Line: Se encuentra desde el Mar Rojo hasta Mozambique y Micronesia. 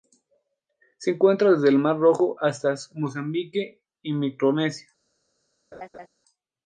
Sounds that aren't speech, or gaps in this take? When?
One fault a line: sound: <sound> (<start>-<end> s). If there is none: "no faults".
sound: laugh (5.7-6.1 s)